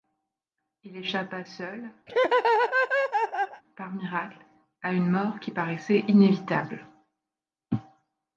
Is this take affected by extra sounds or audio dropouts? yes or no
yes